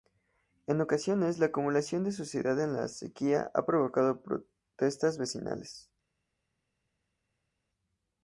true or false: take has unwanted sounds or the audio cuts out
false